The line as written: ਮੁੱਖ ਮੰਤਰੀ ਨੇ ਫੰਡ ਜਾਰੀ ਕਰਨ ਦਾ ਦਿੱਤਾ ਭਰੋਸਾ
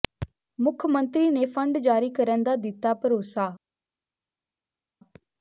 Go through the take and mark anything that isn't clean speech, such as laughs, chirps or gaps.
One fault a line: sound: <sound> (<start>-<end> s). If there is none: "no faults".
no faults